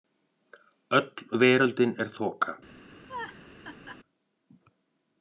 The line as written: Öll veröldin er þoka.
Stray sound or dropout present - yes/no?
yes